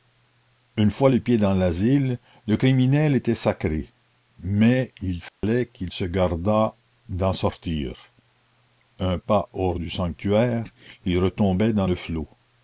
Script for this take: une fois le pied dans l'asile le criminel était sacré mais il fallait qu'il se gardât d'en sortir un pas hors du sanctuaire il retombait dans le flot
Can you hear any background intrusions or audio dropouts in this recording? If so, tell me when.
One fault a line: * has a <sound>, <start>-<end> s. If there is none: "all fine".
* has a dropout, 5.3-5.4 s